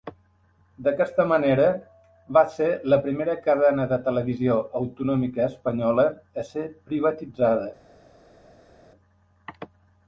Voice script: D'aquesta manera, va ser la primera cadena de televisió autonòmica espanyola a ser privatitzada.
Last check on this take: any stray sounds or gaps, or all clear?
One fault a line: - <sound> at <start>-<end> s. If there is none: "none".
none